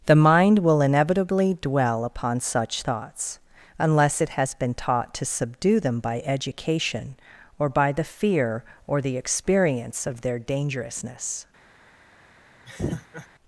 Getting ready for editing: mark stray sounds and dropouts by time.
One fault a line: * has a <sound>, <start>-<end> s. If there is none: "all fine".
* has a laugh, 12.7-13.3 s